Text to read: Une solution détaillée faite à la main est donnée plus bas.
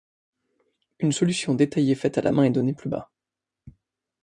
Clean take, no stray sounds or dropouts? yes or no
yes